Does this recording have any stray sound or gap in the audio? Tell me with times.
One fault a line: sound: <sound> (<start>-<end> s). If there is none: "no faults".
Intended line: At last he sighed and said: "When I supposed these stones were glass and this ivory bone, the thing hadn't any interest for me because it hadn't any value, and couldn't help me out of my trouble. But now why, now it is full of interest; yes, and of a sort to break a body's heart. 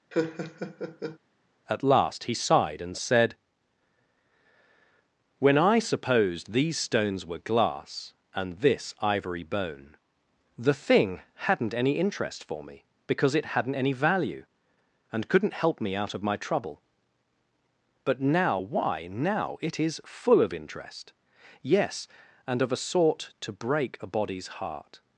sound: laugh (0.1-1.2 s)